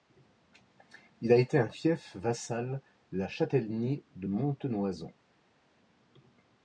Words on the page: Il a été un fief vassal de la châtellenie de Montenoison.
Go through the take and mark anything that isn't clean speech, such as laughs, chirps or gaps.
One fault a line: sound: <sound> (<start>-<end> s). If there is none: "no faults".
no faults